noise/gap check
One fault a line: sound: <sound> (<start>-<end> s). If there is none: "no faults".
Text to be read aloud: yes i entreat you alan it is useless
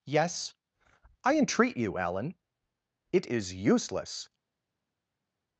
no faults